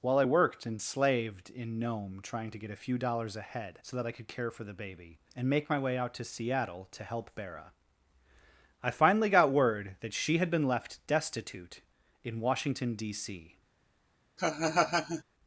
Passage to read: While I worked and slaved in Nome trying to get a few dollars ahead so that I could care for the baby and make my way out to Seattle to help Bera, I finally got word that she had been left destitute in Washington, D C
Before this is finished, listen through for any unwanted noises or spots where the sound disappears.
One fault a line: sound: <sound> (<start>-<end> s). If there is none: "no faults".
sound: laugh (14.4-15.2 s)